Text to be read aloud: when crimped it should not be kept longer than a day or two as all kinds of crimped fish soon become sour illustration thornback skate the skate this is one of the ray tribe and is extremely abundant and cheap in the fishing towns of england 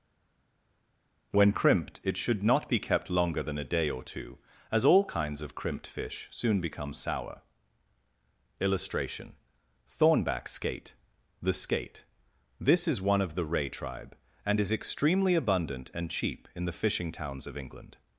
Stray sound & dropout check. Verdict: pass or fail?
pass